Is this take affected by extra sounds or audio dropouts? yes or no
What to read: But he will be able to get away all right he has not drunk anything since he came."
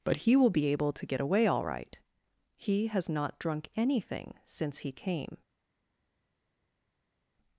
no